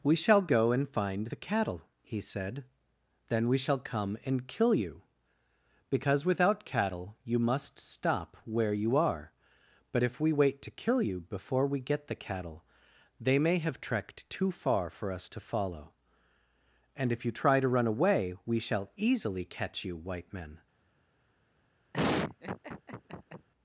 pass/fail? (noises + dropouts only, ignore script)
fail